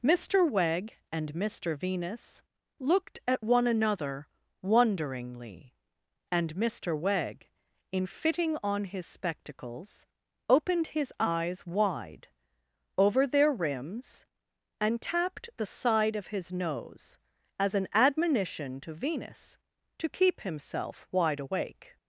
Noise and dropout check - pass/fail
pass